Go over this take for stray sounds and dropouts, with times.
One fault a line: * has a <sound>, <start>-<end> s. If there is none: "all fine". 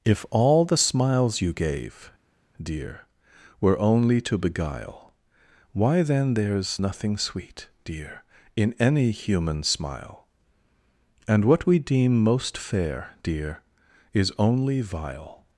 all fine